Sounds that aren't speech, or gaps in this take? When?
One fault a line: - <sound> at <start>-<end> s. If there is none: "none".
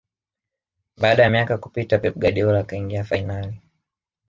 none